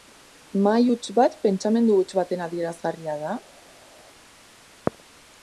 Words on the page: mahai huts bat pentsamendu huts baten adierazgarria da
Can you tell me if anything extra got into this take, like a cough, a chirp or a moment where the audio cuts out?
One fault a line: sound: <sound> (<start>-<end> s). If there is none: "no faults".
no faults